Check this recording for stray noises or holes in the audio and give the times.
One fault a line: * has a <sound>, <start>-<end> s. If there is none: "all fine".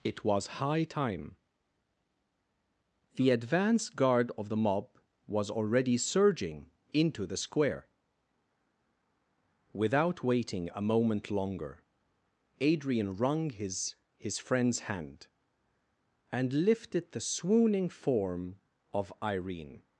all fine